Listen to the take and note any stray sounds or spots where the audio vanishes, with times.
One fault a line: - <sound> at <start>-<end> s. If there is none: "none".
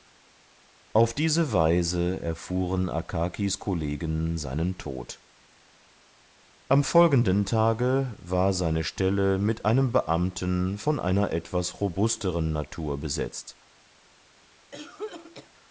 - cough at 14.7-15.5 s